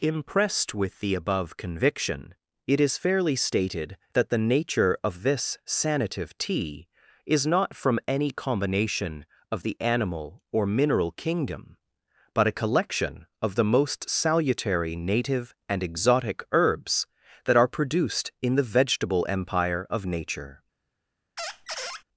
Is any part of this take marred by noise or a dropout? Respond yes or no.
yes